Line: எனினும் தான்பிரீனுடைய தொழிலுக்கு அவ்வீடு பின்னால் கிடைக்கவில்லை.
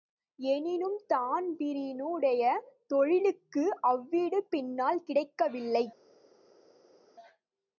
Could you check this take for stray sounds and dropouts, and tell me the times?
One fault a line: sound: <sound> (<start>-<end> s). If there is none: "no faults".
no faults